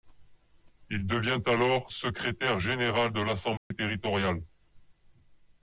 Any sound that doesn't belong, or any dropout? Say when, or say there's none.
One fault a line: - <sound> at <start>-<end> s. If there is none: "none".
- dropout at 3.6-3.7 s